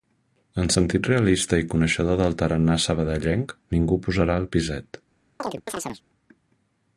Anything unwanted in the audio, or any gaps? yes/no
yes